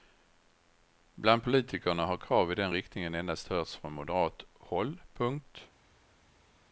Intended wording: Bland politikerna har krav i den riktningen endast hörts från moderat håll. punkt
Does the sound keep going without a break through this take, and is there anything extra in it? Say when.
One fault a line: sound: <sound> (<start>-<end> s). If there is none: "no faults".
no faults